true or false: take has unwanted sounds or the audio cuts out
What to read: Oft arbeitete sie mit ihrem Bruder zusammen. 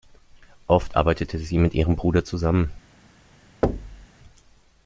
true